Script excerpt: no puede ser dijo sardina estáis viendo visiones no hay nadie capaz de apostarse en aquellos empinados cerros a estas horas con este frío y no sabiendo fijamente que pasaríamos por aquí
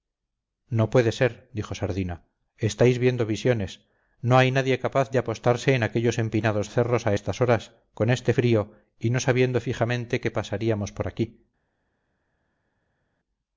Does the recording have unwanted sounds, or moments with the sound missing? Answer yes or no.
no